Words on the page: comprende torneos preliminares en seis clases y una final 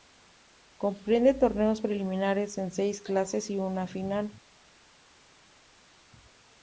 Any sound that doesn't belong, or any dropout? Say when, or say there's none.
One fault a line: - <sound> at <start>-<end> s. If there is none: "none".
none